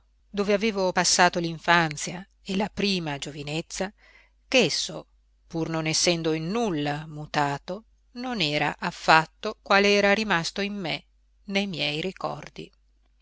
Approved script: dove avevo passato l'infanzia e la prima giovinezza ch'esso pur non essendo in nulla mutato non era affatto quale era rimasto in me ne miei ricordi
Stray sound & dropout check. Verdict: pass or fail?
pass